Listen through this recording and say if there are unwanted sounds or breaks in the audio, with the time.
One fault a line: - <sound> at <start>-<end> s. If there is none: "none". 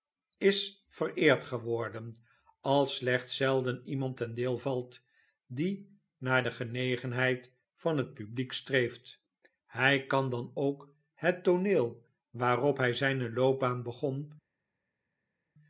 none